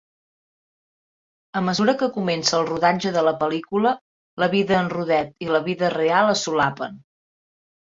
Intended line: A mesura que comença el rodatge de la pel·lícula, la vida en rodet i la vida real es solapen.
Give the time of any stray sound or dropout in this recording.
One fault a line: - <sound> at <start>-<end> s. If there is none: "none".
none